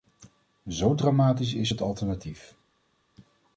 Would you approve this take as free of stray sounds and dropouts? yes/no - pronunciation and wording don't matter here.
yes